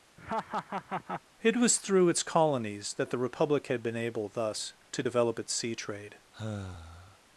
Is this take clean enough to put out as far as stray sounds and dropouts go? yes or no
no